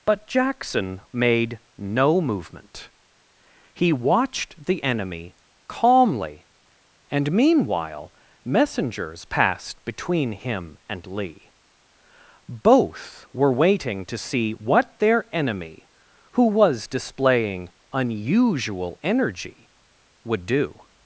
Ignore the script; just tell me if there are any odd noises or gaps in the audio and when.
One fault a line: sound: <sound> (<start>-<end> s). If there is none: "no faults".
no faults